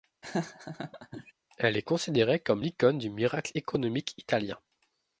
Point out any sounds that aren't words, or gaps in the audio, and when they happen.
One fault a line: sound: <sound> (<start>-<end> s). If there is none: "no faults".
sound: laugh (0.2-1.3 s)